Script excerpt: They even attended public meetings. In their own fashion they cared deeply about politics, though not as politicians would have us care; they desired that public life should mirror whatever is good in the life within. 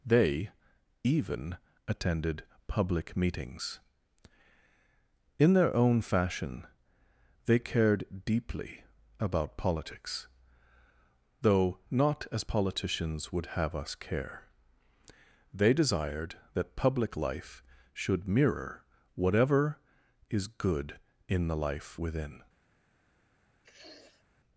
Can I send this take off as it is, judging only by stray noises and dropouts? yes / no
no